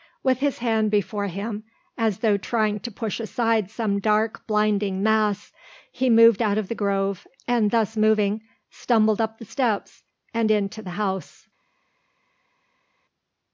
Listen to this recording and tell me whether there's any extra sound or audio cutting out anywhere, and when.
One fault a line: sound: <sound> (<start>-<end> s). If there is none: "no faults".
no faults